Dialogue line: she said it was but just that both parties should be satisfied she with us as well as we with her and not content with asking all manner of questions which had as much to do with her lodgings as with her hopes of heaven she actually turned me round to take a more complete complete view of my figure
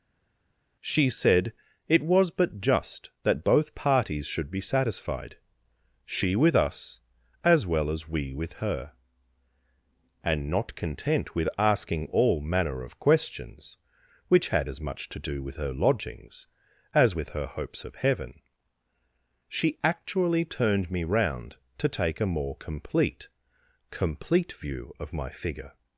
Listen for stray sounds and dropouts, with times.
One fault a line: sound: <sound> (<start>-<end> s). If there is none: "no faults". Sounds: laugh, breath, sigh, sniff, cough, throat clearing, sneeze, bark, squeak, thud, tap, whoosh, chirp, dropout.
no faults